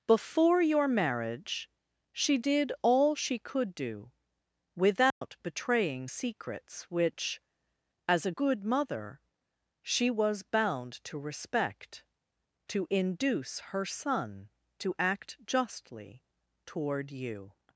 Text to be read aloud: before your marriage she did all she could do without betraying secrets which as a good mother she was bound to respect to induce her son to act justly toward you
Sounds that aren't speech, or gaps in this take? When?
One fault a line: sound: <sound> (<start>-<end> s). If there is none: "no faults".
sound: dropout (5.1-5.2 s)